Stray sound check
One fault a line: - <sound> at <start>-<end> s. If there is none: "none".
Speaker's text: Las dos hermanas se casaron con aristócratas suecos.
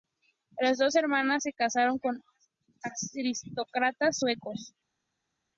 none